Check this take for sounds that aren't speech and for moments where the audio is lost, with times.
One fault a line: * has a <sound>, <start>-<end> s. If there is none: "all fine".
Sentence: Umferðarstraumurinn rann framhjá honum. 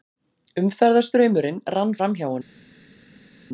all fine